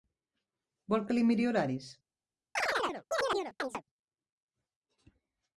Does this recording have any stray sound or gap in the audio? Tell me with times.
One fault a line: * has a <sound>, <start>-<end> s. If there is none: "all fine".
* has a chirp, 2.6-3.8 s